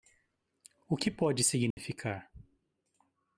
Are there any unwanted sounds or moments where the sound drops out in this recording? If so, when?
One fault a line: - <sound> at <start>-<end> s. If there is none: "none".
- dropout at 1.7-1.8 s